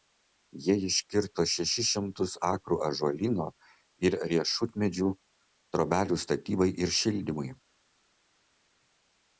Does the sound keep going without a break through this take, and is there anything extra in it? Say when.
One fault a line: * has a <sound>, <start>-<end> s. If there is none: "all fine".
all fine